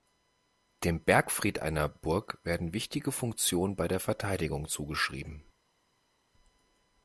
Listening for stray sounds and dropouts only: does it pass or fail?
pass